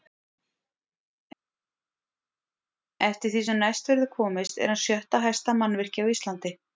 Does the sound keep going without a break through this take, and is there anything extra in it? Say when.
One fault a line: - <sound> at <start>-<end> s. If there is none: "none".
none